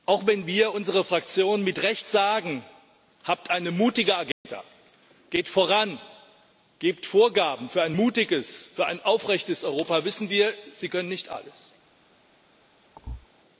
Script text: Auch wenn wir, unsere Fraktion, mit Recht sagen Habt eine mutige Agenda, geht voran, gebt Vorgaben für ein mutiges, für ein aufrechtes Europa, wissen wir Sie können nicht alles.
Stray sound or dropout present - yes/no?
yes